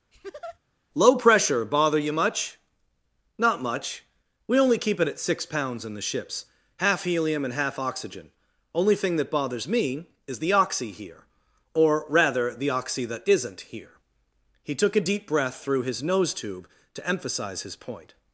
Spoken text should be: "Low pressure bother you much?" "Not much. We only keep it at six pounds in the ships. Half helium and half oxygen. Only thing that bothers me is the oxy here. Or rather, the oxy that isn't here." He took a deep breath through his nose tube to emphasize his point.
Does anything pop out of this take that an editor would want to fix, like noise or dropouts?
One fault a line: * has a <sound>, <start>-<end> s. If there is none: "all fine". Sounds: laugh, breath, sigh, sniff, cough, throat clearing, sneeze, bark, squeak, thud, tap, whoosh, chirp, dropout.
* has a laugh, 0.1-0.6 s